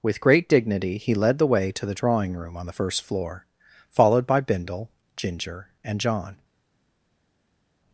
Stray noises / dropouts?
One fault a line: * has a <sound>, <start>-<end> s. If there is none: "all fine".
all fine